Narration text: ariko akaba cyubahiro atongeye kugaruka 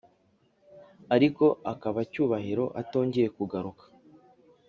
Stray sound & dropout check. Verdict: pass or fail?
pass